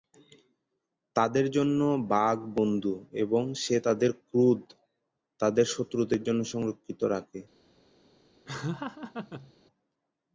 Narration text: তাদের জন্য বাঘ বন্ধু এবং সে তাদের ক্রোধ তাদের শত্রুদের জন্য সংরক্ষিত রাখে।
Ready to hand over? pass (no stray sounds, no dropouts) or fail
fail